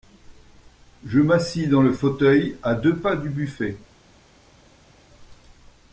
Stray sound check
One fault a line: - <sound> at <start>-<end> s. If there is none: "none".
none